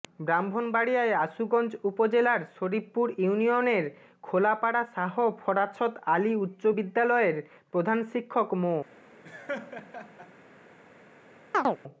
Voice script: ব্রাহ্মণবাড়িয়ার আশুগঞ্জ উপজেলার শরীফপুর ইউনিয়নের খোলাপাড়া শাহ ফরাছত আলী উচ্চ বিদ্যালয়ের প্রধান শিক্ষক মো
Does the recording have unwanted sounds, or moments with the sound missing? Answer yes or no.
yes